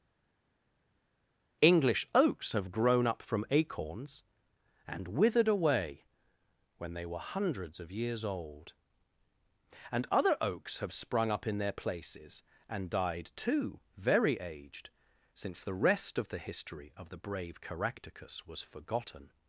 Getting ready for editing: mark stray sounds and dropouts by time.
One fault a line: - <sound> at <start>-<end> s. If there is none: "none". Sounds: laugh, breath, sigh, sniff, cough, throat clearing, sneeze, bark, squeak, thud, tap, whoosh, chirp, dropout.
none